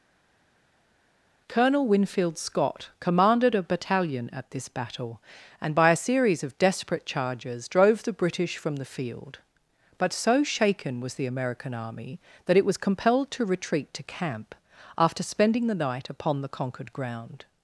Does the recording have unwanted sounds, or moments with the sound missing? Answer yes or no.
no